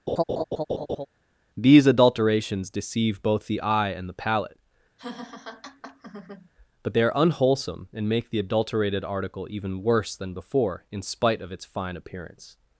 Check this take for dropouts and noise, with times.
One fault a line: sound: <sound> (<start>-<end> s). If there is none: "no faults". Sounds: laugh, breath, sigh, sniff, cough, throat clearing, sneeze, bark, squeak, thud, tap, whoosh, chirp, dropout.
sound: laugh (0.1-1.1 s)
sound: laugh (5.0-6.5 s)